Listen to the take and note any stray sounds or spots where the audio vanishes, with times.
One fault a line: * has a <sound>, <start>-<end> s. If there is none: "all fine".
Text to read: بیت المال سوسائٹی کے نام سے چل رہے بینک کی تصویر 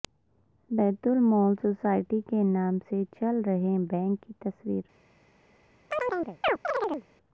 * has a chirp, 5.9-7.1 s